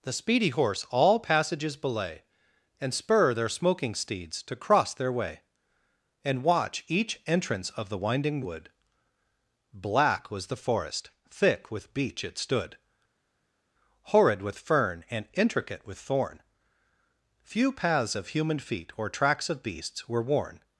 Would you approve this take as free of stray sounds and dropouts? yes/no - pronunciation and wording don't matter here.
yes